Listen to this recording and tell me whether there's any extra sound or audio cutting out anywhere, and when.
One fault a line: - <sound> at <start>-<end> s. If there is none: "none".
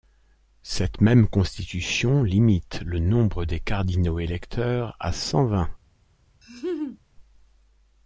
- laugh at 6.4-7.0 s